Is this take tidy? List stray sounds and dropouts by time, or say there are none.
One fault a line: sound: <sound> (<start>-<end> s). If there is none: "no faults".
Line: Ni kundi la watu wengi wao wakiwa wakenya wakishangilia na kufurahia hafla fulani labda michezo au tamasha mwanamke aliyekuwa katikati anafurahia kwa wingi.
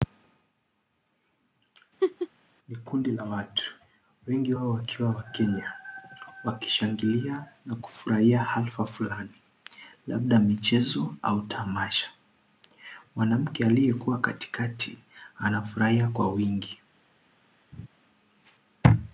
sound: laugh (2.0-2.3 s)
sound: laugh (17.7-17.9 s)